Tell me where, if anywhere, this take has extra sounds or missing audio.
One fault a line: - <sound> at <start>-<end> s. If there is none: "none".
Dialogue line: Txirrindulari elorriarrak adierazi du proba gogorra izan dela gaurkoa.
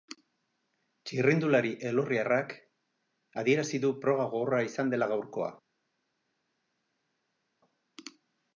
none